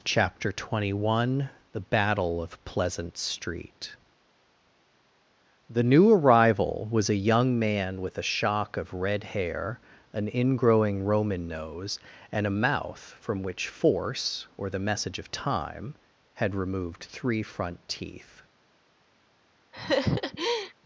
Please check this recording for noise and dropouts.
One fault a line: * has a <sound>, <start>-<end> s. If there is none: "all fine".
* has a laugh, 19.7-20.7 s